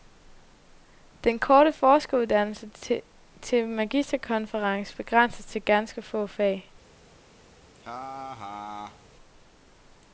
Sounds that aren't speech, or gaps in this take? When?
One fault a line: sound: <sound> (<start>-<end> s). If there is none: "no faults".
sound: laugh (7.7-9.1 s)